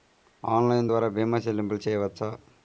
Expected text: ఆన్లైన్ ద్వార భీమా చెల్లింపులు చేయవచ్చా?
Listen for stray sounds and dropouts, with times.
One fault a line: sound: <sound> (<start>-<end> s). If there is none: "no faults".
no faults